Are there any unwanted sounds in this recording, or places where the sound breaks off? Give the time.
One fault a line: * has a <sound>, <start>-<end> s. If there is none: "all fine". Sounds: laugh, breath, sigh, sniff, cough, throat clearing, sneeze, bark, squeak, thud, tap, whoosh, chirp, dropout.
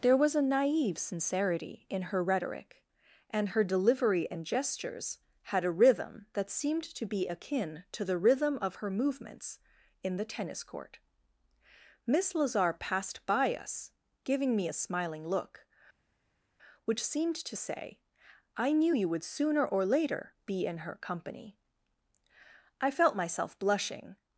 all fine